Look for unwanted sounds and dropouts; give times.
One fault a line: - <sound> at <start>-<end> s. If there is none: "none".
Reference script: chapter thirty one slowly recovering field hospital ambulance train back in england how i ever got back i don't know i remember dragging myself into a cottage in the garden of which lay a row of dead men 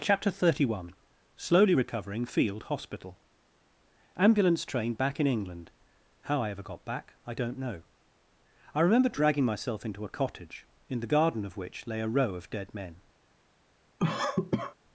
- cough at 14.0-14.8 s